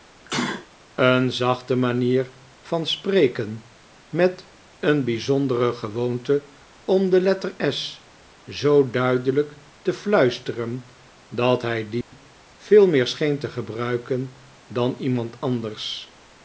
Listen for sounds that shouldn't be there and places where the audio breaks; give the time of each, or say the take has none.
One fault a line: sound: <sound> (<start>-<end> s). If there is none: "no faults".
sound: sneeze (0.2-0.7 s)
sound: dropout (12.0-12.1 s)